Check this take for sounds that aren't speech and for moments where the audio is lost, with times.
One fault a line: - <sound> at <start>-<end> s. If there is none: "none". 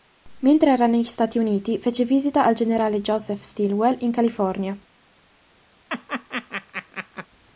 - laugh at 5.9-7.3 s